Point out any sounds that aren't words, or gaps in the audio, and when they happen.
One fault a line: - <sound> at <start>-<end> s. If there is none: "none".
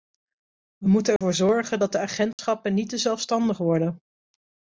- dropout at 1.2-1.2 s
- dropout at 2.3-2.4 s